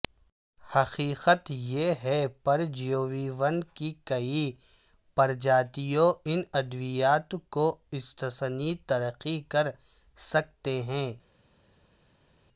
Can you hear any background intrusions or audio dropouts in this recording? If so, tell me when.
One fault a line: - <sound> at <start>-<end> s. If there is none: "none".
none